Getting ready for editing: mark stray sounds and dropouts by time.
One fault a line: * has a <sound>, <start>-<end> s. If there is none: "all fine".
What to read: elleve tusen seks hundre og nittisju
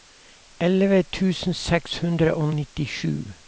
all fine